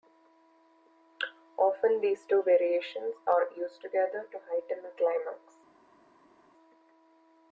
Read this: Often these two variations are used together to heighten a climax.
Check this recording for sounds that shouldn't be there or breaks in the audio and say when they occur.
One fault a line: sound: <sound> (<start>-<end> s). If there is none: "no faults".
no faults